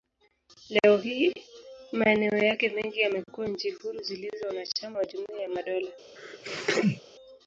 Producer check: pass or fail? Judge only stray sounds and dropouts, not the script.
fail